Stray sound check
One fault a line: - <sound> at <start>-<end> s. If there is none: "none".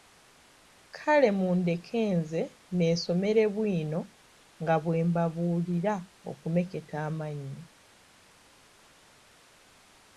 none